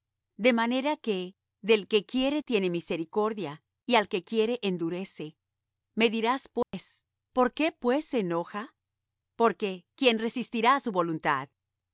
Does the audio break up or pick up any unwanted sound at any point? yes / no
yes